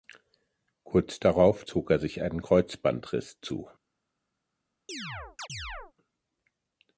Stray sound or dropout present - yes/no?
yes